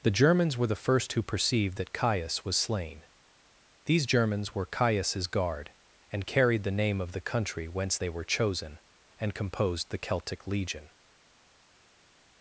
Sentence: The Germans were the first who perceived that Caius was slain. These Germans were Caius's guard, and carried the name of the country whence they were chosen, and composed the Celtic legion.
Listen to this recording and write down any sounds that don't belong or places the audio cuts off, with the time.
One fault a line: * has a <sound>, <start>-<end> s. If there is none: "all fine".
all fine